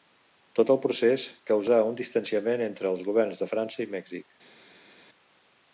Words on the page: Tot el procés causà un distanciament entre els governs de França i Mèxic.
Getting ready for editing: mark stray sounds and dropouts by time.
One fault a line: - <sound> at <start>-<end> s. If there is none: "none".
none